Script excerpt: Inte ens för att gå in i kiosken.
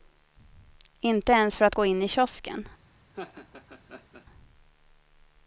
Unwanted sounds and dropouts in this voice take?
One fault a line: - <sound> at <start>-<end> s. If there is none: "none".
- laugh at 3.1-4.3 s